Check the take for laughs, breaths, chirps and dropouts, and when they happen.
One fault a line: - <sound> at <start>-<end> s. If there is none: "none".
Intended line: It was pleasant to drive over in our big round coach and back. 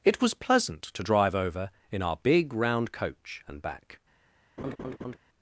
- laugh at 4.6-5.2 s